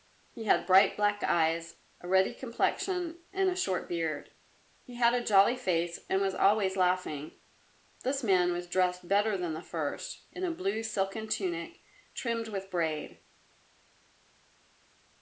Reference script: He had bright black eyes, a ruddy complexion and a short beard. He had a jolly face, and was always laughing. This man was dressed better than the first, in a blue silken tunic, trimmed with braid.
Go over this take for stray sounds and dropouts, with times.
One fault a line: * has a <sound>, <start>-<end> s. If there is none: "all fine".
all fine